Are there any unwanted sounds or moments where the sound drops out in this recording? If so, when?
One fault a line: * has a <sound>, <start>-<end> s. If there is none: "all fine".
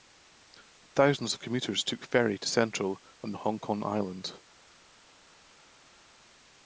all fine